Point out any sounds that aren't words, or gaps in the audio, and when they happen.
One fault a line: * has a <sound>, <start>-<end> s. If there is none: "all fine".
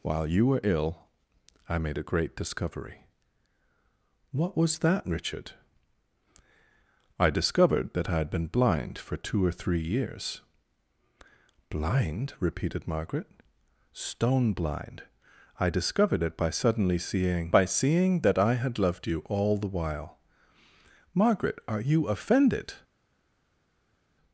all fine